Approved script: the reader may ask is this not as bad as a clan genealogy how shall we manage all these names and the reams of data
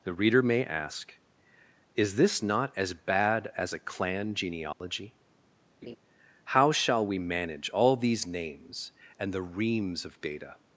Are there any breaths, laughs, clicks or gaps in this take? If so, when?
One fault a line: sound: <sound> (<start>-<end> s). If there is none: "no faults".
sound: dropout (4.7-4.8 s)
sound: laugh (5.8-6.0 s)